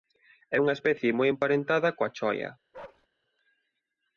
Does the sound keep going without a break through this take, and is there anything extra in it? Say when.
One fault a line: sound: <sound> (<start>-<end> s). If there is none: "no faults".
sound: bark (2.7-3.1 s)